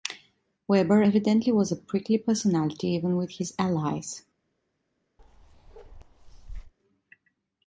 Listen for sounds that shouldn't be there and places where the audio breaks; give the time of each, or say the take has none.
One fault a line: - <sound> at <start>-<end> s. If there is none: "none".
- bark at 5.2-6.7 s